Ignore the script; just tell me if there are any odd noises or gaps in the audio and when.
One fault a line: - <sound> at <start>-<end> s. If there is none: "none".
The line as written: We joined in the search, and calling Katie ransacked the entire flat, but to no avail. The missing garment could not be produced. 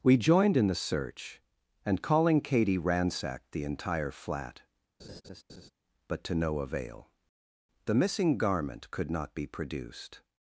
- laugh at 5.0-5.7 s